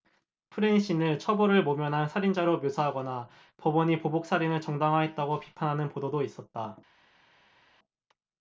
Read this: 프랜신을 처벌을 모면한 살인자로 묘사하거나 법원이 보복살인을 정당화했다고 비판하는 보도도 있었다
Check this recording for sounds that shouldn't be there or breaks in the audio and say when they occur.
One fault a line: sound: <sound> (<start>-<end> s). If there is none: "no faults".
no faults